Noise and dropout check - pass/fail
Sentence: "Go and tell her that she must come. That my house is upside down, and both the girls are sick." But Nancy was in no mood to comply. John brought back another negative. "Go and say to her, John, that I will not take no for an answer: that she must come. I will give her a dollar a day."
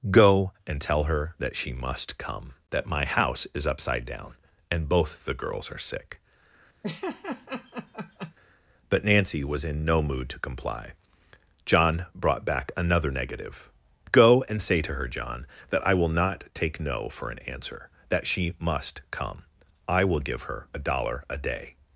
fail